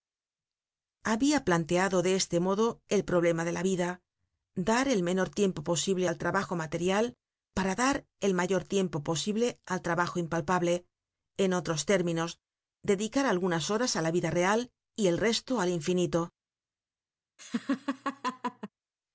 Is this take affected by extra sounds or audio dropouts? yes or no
yes